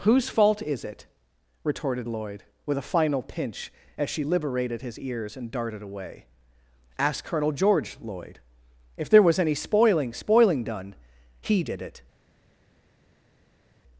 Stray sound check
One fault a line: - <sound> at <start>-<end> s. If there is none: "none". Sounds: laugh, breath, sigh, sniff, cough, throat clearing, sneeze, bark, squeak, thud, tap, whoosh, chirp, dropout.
none